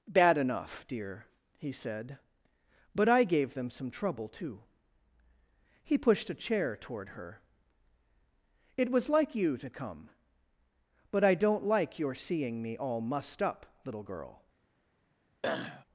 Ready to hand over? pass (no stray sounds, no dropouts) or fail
fail